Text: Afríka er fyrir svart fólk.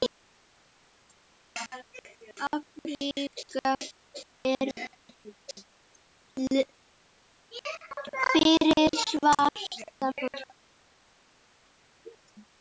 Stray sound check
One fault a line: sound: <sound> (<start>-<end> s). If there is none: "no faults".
no faults